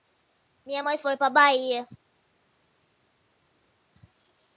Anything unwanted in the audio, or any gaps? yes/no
no